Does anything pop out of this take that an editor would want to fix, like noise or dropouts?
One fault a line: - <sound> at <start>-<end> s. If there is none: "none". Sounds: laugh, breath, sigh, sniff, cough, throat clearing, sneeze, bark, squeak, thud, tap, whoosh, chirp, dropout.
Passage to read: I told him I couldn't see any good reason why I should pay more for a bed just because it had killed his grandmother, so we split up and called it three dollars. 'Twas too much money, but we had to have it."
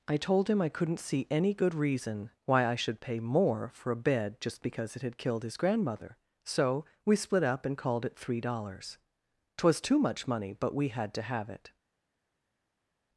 none